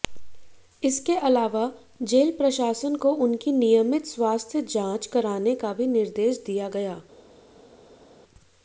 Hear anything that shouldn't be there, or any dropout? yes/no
no